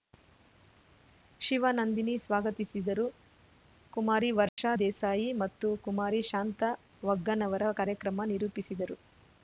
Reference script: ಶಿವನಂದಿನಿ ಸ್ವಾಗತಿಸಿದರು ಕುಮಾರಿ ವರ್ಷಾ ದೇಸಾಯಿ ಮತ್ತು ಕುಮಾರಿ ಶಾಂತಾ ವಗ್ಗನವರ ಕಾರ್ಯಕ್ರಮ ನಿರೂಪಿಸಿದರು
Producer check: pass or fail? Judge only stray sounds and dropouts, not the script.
fail